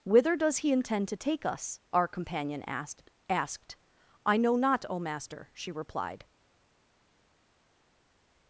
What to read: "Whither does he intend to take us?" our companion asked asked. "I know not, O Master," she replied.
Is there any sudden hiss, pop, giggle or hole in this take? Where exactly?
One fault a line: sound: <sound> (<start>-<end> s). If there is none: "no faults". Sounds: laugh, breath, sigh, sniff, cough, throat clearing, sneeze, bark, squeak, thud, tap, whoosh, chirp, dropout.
no faults